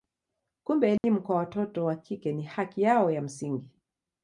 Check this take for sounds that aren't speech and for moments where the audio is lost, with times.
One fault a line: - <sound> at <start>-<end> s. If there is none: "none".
- dropout at 1.0-1.0 s